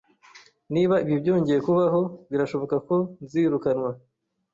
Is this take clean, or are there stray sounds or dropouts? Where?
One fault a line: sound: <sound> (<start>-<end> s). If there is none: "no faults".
no faults